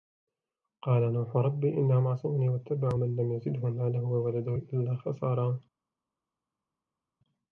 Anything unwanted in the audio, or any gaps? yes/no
no